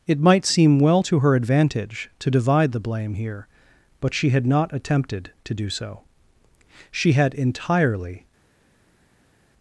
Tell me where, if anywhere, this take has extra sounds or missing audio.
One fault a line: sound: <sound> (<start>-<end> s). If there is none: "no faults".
no faults